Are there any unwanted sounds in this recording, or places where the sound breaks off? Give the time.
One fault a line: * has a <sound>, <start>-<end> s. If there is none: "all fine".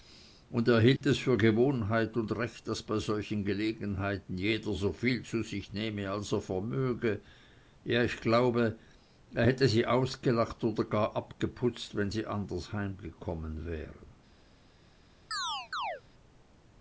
* has a dropout, 1.0-1.0 s
* has a chirp, 15.3-16.0 s